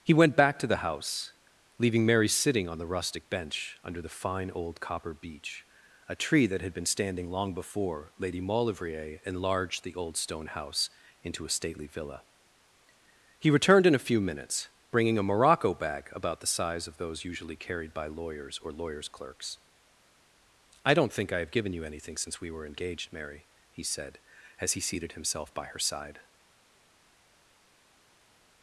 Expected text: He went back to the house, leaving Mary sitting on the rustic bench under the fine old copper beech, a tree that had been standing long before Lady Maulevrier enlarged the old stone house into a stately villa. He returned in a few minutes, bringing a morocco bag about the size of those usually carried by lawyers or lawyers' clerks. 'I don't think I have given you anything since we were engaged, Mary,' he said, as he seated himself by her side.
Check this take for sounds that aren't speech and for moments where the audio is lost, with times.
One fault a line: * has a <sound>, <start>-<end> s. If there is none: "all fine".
all fine